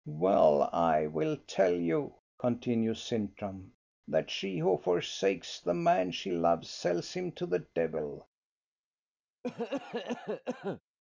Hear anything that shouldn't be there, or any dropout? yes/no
yes